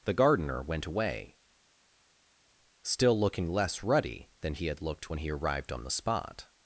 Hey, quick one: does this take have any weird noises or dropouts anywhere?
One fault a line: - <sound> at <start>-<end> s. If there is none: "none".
none